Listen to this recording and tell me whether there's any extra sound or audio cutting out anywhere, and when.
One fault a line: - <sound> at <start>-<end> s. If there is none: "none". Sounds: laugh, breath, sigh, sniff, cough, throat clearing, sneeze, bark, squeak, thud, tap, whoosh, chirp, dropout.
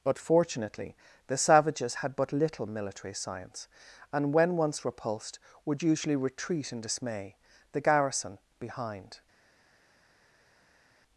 none